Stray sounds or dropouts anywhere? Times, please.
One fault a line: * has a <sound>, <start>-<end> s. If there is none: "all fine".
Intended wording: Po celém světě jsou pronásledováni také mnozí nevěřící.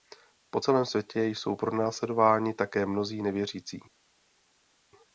all fine